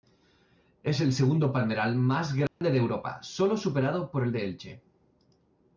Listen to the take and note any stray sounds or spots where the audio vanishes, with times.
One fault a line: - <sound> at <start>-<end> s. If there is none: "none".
- dropout at 2.5-2.6 s